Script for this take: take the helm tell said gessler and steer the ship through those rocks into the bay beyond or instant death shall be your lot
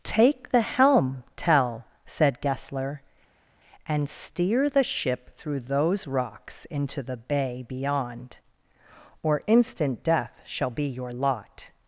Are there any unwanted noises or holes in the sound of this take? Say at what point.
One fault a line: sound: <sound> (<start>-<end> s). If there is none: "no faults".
no faults